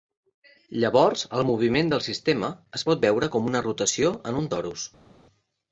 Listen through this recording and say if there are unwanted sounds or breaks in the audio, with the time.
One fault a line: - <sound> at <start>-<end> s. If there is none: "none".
none